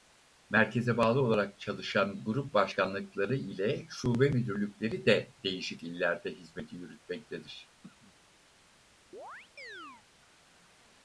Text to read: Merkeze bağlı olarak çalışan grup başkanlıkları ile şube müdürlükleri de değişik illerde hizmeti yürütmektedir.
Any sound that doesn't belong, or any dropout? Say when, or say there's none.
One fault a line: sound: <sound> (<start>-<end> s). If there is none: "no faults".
sound: throat clearing (7.8-8.2 s)
sound: chirp (9.1-10.1 s)